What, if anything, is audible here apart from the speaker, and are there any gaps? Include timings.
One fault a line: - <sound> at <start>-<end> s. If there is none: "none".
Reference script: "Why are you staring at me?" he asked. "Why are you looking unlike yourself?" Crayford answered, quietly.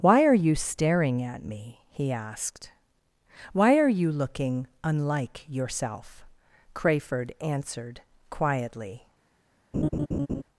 - laugh at 9.7-10.4 s